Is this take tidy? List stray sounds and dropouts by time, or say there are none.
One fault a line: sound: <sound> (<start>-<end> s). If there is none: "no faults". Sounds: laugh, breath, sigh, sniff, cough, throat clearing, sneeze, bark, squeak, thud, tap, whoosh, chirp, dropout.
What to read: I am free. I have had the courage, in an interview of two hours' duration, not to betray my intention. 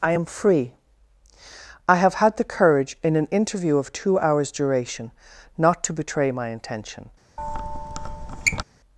sound: squeak (7.4-8.6 s)